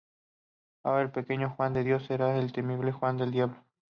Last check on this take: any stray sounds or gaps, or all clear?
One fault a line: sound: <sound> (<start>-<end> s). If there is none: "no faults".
no faults